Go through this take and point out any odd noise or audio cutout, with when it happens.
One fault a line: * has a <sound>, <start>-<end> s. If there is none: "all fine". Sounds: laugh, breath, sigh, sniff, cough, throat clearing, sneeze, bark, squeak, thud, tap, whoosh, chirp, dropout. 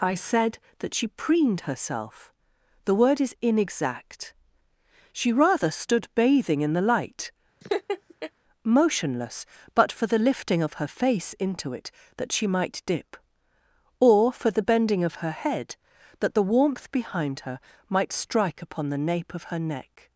* has a laugh, 7.6-8.3 s